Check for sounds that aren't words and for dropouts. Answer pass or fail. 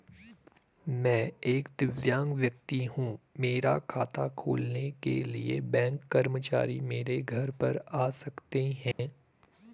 fail